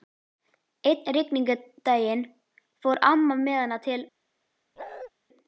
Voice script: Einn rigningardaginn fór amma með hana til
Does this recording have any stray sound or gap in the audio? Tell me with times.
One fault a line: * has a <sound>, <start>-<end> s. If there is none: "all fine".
* has a bark, 4.8-5.1 s